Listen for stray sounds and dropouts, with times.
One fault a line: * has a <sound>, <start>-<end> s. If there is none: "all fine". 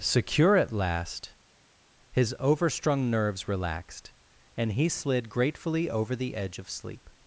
all fine